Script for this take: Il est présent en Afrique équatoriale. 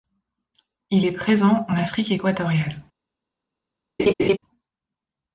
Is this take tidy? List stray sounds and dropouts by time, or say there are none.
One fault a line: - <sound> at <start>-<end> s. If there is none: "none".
- laugh at 4.0-4.4 s